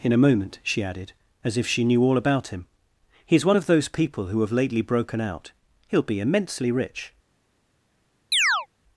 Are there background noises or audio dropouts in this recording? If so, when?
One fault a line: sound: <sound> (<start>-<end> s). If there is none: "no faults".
sound: chirp (8.3-8.7 s)